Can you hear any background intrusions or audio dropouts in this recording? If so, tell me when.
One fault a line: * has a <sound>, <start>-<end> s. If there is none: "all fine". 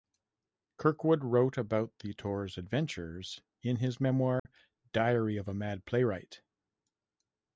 * has a dropout, 4.4-4.5 s